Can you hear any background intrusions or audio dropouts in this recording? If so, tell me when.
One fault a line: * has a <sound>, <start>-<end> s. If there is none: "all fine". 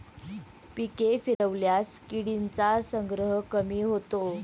* has a dropout, 1.3-1.4 s